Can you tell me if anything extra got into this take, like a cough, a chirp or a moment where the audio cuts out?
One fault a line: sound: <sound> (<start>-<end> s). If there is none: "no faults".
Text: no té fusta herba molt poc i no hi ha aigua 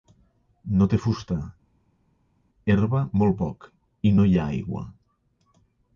no faults